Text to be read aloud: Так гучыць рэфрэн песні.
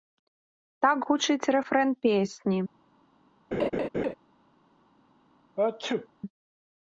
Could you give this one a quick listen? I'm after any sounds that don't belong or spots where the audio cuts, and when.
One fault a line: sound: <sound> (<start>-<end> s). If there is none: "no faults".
sound: laugh (3.5-4.1 s)
sound: sneeze (5.6-6.1 s)